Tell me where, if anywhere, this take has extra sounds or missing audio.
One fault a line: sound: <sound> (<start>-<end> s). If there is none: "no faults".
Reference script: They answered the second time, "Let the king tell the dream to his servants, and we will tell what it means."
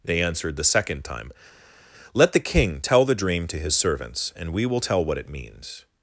no faults